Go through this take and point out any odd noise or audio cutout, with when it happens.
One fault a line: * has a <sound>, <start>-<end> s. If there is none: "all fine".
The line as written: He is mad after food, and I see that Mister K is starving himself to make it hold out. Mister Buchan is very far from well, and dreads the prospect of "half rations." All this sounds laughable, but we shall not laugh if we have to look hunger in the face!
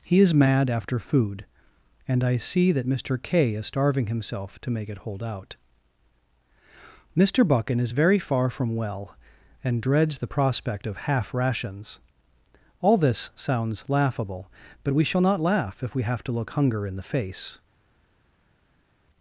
all fine